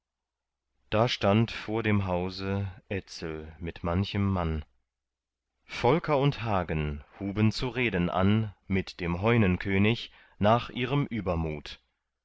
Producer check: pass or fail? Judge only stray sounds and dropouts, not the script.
pass